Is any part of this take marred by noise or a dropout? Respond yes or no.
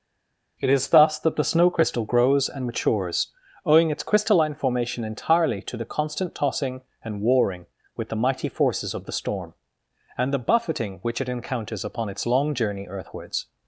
no